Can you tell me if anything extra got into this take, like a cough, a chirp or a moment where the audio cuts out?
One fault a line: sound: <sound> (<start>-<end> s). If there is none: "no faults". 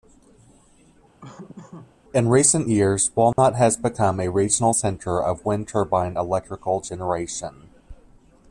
sound: laugh (1.2-1.9 s)
sound: dropout (3.3-3.4 s)